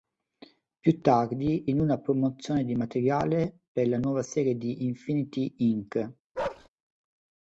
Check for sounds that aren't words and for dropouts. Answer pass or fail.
fail